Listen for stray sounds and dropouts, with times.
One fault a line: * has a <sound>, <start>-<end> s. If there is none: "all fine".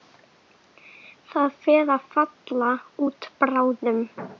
all fine